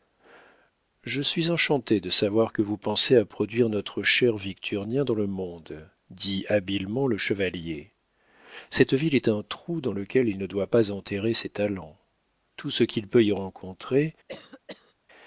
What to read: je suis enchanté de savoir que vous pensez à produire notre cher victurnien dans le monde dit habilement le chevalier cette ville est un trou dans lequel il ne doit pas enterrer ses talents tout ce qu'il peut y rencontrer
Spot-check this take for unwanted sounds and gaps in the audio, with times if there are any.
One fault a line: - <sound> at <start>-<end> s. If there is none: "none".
- cough at 14.3-14.9 s